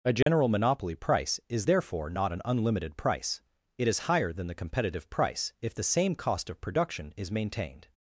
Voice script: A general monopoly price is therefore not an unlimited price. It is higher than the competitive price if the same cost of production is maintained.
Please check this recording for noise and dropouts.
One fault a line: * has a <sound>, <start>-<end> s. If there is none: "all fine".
* has a dropout, 0.2-0.3 s